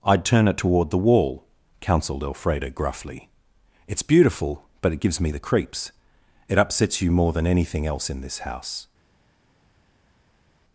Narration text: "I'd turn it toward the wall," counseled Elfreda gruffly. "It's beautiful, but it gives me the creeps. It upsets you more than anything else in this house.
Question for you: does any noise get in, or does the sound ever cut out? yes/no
no